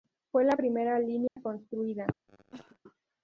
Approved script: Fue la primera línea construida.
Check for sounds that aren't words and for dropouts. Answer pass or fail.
fail